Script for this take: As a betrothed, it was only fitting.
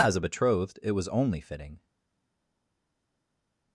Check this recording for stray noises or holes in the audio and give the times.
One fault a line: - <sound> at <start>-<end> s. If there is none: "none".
none